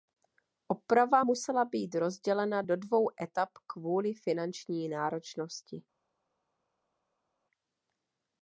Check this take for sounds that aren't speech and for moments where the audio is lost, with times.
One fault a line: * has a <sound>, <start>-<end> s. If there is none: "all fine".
all fine